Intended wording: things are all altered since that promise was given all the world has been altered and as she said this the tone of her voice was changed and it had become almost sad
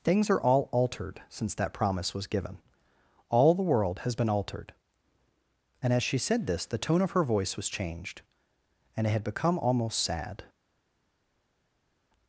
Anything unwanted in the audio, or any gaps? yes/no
no